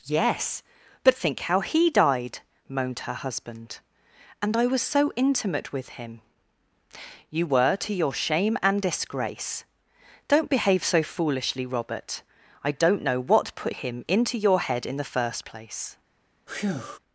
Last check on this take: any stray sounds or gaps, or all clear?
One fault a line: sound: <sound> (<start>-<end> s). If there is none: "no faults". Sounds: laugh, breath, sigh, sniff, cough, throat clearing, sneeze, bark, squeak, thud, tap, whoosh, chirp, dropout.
sound: breath (16.5-17.0 s)